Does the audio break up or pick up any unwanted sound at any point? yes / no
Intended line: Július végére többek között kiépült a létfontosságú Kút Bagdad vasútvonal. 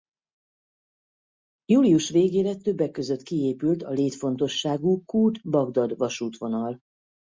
no